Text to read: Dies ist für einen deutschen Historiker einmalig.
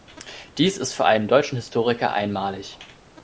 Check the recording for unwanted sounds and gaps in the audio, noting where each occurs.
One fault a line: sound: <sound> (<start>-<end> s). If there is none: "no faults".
no faults